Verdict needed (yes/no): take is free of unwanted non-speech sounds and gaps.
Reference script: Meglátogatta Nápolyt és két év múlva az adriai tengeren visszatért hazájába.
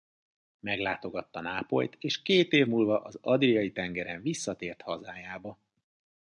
yes